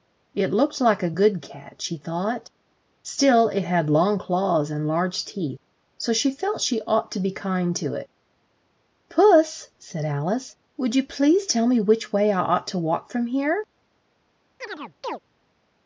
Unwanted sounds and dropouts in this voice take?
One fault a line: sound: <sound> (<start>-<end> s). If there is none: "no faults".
sound: chirp (14.6-15.2 s)